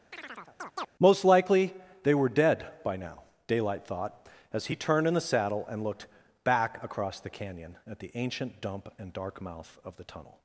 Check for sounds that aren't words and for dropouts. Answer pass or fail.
fail